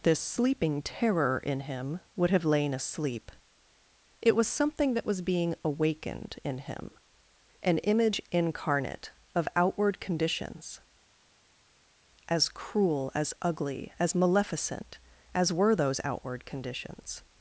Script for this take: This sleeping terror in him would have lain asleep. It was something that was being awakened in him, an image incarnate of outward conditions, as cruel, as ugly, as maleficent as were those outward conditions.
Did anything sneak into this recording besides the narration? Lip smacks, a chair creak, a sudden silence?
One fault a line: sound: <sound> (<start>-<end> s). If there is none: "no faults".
no faults